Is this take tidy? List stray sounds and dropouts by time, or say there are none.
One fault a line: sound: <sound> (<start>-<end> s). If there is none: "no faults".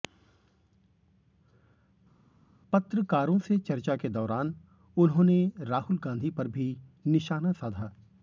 no faults